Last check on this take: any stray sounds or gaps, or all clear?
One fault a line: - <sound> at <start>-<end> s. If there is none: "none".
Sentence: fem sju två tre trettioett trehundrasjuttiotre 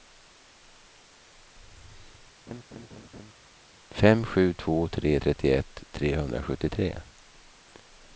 - laugh at 2.5-3.3 s